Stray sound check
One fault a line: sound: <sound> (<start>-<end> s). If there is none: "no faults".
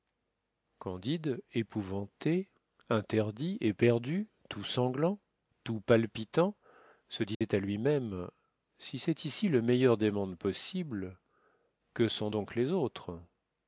sound: dropout (7.3-7.4 s)